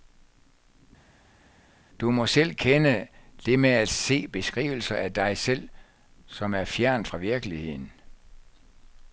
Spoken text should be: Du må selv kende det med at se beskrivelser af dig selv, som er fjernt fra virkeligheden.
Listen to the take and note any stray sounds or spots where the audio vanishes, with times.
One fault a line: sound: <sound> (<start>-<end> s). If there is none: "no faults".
no faults